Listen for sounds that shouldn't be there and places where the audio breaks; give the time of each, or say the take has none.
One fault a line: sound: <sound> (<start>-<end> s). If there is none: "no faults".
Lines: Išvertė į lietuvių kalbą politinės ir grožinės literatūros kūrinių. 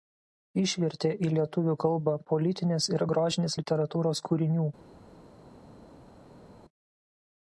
no faults